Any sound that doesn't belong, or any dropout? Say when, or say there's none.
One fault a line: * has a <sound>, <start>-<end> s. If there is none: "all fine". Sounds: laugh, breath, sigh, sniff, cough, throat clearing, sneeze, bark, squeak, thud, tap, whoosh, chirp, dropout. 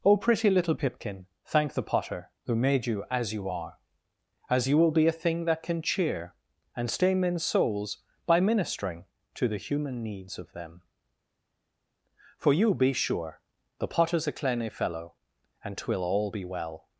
all fine